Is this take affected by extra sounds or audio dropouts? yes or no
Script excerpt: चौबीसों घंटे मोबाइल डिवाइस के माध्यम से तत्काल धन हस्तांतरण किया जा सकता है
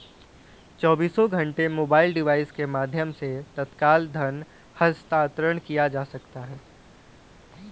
no